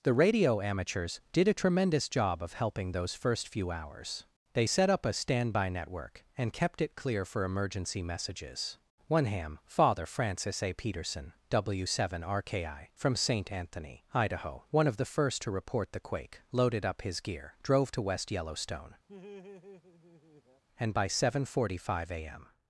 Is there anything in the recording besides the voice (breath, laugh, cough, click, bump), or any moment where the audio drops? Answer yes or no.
yes